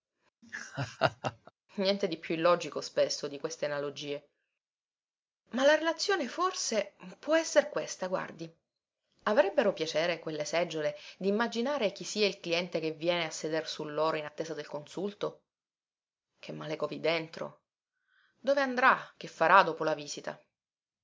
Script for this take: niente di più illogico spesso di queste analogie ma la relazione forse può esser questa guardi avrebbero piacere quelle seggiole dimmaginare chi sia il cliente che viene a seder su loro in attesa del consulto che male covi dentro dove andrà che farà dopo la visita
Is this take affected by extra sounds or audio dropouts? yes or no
yes